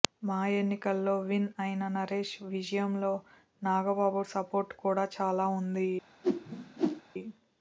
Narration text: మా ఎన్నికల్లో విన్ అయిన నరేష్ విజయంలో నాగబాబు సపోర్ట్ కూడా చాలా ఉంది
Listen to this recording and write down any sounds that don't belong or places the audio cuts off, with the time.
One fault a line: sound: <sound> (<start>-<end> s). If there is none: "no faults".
sound: whoosh (6.2-7.0 s)